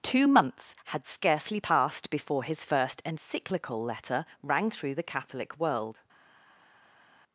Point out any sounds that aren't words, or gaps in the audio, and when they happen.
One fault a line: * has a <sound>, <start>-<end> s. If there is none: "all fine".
all fine